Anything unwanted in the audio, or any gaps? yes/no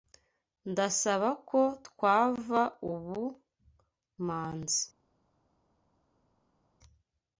no